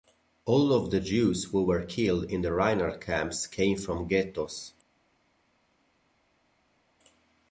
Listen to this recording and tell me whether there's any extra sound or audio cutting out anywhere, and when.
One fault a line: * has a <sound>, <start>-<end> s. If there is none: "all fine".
all fine